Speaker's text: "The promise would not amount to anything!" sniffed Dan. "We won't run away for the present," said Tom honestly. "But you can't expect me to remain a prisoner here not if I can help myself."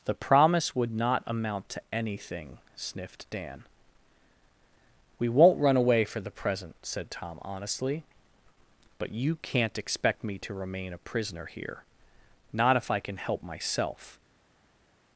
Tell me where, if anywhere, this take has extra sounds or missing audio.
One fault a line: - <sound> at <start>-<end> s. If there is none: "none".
none